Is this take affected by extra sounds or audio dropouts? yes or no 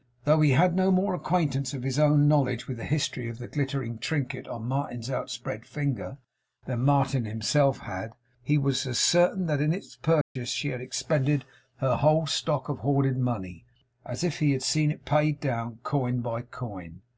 yes